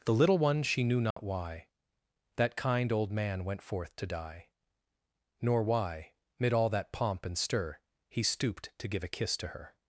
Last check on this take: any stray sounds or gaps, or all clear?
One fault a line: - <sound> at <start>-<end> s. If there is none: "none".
- dropout at 1.1-1.2 s